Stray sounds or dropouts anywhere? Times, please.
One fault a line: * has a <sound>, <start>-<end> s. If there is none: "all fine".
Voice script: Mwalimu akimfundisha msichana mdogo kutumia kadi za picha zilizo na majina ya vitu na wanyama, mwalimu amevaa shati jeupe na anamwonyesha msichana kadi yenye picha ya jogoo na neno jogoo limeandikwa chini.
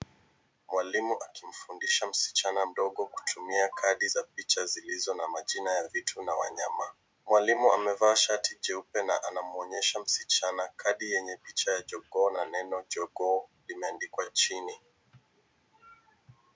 all fine